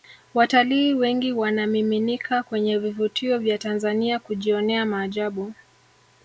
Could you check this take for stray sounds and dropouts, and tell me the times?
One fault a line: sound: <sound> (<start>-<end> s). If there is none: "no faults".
no faults